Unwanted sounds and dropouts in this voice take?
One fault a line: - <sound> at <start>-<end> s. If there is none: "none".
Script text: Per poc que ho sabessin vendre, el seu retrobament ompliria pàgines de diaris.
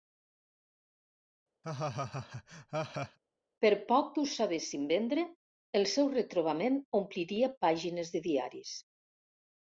- laugh at 1.6-3.2 s